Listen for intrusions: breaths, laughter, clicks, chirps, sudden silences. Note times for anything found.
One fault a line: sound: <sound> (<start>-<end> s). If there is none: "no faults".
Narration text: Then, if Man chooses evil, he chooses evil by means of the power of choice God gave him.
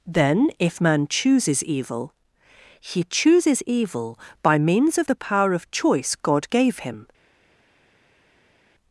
no faults